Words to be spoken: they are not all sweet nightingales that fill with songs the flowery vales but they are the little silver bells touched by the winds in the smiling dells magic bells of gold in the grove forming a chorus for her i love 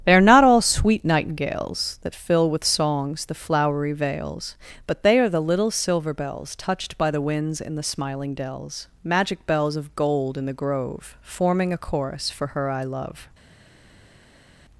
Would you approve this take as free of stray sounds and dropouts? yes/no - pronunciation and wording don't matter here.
yes